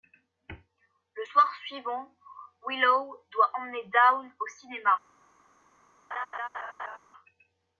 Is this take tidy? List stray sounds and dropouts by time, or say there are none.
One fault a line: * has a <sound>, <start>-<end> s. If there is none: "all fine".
* has a laugh, 6.1-7.0 s